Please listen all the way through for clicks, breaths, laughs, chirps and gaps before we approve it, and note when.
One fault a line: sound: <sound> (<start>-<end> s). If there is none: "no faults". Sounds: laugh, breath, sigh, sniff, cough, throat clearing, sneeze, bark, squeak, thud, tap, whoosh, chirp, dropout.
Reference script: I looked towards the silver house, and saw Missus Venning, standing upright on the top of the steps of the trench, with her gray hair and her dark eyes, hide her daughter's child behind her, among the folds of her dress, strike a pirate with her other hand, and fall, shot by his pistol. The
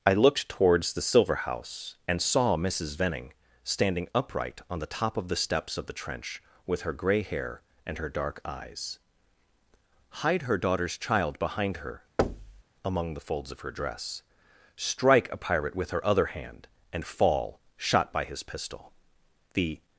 sound: thud (12.2-12.6 s)